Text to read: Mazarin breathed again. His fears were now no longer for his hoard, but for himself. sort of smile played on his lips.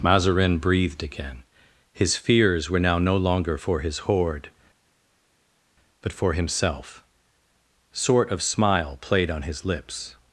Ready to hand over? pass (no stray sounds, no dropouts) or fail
pass